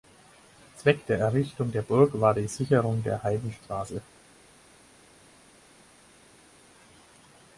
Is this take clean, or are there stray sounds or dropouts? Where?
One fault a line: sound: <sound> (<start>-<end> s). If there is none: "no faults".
no faults